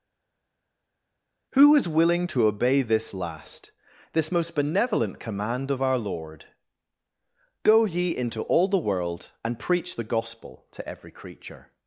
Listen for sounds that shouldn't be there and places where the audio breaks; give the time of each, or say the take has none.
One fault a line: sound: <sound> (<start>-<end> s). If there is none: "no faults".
no faults